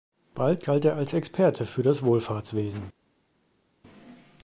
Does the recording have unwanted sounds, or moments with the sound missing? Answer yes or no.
no